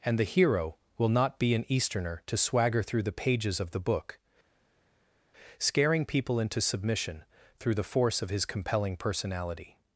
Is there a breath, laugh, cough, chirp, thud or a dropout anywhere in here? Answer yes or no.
no